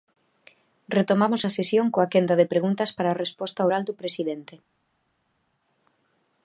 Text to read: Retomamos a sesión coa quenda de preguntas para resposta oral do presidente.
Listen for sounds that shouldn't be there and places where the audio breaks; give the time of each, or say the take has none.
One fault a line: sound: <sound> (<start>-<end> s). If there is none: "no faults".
no faults